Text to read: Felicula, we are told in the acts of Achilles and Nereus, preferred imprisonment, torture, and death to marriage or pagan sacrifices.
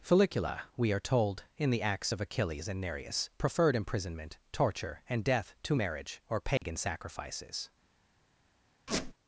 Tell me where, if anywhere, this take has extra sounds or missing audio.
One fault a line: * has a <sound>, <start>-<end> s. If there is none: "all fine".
* has a dropout, 6.6-6.6 s
* has a squeak, 8.9-9.1 s